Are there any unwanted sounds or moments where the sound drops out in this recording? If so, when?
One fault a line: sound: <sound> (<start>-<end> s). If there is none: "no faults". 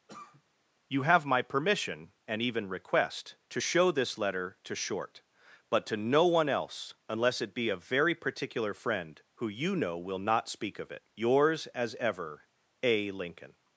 sound: cough (0.1-0.4 s)